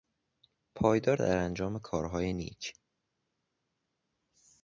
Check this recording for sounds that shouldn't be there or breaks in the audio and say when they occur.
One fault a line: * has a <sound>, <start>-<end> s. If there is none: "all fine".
all fine